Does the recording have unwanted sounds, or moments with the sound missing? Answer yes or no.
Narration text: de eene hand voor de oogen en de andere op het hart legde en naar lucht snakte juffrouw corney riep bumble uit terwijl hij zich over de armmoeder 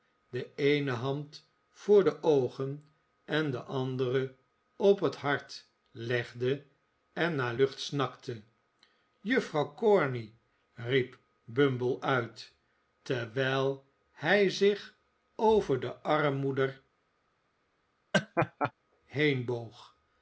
yes